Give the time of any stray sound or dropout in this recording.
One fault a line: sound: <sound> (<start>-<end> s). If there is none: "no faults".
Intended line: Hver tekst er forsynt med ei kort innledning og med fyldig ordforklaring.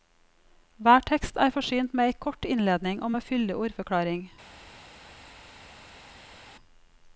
no faults